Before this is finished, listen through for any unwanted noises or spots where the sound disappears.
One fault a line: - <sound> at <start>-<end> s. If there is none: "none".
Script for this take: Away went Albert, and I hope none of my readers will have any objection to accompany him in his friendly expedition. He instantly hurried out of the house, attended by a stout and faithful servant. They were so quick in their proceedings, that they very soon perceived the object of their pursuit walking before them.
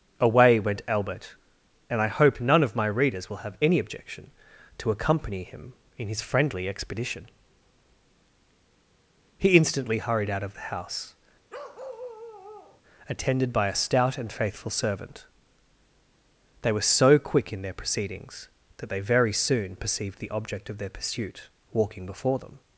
- bark at 11.5-12.8 s